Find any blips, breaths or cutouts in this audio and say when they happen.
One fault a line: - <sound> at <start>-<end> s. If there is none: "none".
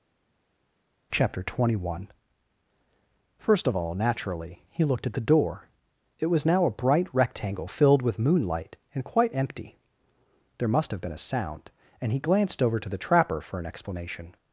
none